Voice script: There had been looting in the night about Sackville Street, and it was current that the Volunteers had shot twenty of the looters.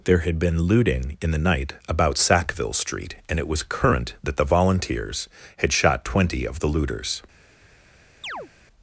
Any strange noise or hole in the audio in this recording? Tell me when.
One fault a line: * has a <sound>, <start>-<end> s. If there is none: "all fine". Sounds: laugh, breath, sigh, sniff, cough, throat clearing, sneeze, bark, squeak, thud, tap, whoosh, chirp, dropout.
* has a chirp, 8.2-8.5 s